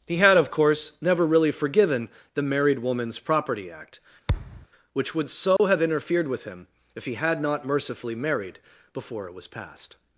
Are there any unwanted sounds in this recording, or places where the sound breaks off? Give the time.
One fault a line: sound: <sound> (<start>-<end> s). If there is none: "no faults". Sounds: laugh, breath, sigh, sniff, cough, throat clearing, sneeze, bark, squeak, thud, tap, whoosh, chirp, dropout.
sound: thud (4.3-4.7 s)
sound: dropout (5.6-5.6 s)